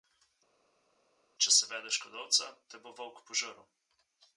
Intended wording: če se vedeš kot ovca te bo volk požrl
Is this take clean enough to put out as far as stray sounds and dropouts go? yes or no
yes